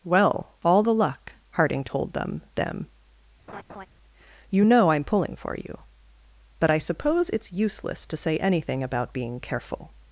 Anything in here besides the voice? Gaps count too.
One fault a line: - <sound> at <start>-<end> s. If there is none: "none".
- laugh at 3.5-3.9 s